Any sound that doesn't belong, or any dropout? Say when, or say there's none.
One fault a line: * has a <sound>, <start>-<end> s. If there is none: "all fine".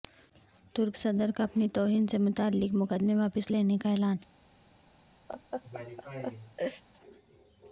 * has a laugh, 5.3-6.8 s